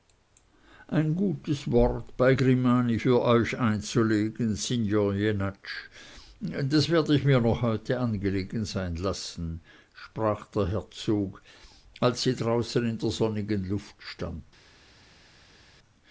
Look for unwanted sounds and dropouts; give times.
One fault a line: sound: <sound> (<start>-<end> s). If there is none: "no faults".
no faults